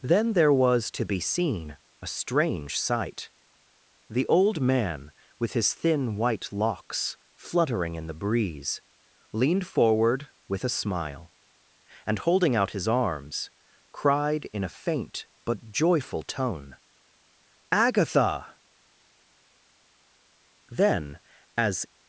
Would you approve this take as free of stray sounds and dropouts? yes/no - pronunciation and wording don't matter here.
yes